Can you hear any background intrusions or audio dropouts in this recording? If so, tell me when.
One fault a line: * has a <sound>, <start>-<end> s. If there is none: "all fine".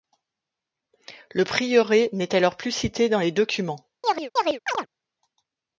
* has a chirp, 4.0-4.9 s